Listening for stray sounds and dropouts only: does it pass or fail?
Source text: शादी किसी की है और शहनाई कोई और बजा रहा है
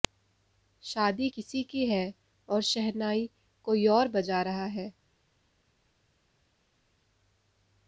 pass